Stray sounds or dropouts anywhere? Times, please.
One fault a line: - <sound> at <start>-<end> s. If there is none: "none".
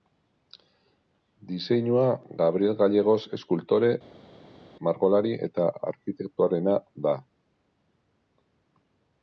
none